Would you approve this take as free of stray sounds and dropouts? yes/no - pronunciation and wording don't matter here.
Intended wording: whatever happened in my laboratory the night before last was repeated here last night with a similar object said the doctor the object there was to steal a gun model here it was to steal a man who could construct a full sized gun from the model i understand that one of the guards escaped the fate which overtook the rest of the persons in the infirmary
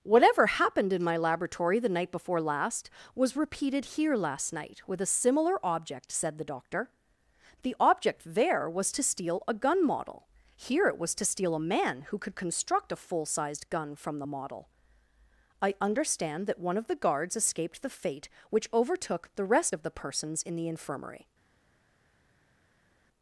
yes